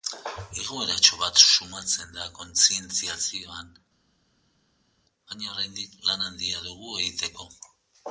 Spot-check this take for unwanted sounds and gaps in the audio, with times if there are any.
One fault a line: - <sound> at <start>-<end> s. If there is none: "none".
none